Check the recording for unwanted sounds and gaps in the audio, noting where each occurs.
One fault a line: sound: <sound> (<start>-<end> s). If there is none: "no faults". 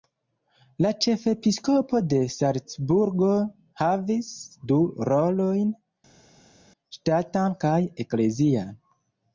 no faults